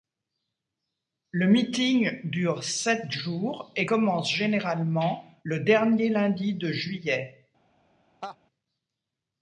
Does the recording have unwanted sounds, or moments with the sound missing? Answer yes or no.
yes